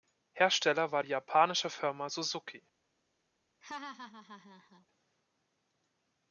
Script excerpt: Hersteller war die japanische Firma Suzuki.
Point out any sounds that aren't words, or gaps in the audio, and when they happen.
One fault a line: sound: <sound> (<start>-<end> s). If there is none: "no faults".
sound: laugh (3.6-4.9 s)